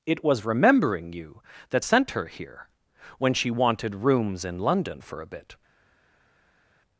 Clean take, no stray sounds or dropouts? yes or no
yes